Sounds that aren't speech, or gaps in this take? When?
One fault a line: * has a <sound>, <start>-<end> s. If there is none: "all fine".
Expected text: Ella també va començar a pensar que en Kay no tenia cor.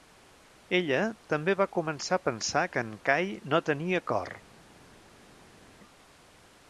all fine